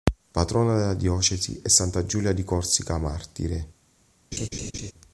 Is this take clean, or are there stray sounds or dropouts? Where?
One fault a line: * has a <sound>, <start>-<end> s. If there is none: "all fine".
* has a laugh, 4.3-4.9 s